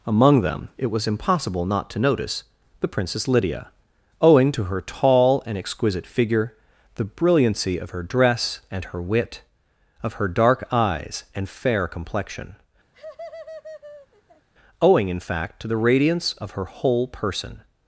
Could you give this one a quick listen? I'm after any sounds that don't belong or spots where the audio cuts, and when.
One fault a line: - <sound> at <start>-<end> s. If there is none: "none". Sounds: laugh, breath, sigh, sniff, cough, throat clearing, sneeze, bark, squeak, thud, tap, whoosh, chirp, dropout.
- laugh at 12.9-14.5 s